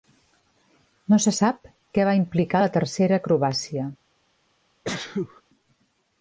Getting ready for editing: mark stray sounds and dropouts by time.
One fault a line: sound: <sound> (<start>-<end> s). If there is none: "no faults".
sound: sneeze (4.8-5.4 s)